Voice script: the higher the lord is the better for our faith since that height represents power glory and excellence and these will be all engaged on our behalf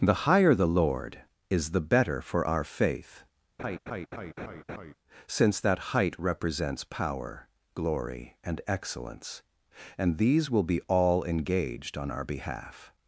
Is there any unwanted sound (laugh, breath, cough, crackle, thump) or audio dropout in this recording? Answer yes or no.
yes